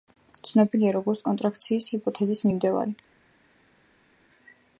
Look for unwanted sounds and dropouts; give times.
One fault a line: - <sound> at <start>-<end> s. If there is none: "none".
none